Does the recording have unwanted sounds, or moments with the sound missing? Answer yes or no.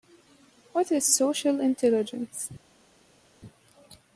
no